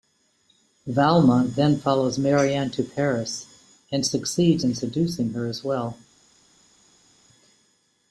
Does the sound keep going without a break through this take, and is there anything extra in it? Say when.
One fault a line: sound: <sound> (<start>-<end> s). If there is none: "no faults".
no faults